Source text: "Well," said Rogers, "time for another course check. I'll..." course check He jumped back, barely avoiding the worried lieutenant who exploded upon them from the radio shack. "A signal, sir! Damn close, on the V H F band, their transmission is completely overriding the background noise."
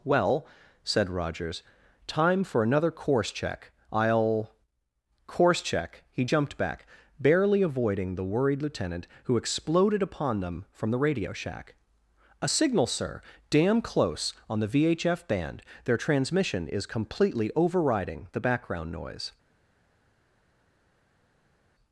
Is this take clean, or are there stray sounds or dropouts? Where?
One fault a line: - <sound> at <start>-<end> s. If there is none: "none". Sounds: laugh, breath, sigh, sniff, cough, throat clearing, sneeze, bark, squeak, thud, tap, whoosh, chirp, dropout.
none